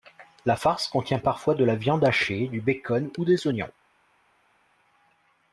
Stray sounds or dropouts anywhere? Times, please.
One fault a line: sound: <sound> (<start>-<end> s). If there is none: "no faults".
no faults